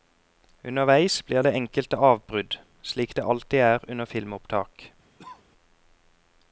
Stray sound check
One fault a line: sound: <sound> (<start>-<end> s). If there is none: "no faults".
sound: cough (5.2-5.4 s)